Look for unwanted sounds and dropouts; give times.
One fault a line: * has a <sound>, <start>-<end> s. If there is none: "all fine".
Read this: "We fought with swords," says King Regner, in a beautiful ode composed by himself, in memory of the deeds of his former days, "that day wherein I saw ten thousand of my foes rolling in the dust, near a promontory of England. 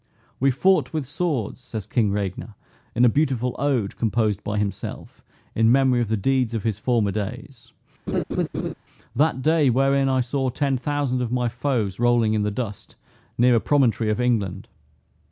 * has a laugh, 8.1-8.7 s